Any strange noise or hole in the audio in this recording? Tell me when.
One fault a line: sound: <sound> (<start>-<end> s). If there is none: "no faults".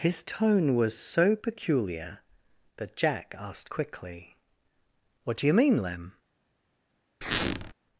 sound: squeak (7.2-7.7 s)